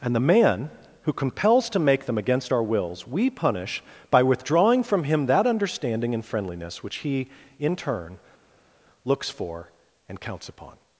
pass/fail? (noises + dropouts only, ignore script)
pass